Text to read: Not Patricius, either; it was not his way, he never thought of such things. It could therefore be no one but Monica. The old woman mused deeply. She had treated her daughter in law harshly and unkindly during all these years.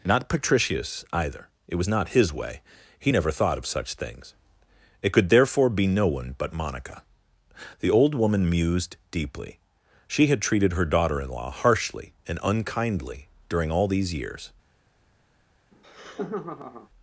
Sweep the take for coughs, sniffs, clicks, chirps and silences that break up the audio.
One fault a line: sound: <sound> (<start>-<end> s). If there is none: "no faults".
sound: laugh (15.7-16.9 s)